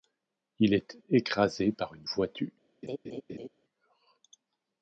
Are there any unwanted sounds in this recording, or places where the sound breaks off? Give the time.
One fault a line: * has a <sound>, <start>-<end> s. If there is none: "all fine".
* has a laugh, 2.8-3.5 s